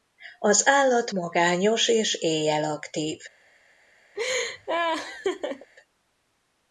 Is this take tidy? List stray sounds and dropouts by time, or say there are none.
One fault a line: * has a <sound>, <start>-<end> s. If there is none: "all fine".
* has a laugh, 4.1-5.7 s